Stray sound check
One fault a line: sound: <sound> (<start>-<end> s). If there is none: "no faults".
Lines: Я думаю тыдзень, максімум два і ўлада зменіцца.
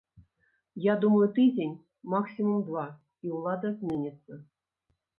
no faults